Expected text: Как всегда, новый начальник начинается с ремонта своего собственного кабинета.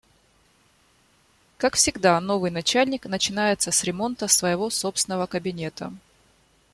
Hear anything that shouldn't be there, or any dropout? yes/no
no